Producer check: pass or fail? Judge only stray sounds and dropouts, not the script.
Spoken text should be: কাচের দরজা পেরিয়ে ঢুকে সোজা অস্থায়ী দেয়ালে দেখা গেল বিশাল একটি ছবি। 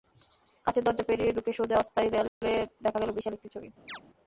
fail